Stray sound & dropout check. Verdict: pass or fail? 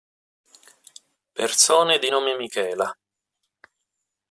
pass